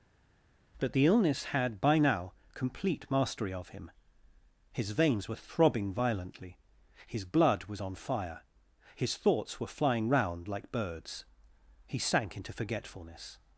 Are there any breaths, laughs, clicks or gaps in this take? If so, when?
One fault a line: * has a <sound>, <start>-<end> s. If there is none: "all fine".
all fine